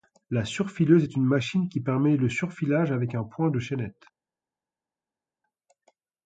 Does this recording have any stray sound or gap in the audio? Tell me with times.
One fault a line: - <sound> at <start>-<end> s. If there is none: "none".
none